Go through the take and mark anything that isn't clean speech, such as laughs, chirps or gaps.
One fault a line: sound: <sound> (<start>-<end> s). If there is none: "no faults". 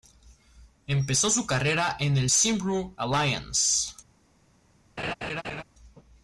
sound: laugh (5.0-5.6 s)